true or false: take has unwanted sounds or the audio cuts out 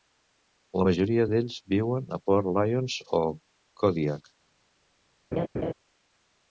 true